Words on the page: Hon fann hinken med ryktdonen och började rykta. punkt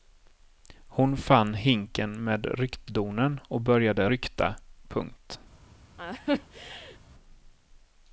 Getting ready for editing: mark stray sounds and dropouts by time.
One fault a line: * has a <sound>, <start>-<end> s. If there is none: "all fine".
* has a laugh, 6.0-7.0 s